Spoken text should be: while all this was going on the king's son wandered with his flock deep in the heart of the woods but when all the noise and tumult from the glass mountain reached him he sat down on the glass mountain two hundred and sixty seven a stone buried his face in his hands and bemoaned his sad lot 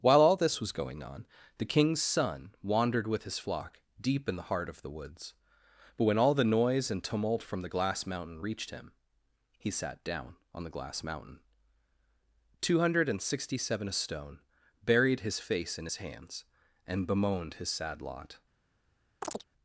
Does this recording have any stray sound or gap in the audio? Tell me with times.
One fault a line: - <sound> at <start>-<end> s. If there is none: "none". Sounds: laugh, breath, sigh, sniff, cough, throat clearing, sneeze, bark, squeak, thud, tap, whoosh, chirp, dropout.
- chirp at 19.2-19.4 s